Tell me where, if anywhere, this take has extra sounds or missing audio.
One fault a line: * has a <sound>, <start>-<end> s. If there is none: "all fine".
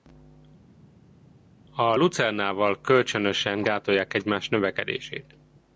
all fine